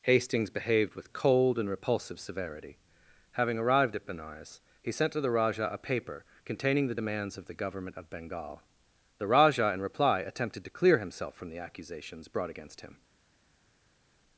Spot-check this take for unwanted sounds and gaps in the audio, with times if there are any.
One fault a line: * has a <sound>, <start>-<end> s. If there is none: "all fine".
all fine